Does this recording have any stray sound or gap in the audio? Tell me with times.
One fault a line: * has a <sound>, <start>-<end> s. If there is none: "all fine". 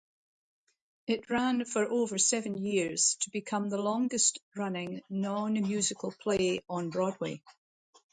all fine